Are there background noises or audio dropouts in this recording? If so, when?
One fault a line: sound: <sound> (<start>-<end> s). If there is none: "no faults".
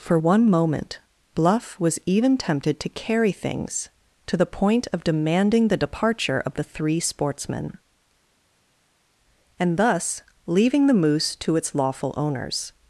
no faults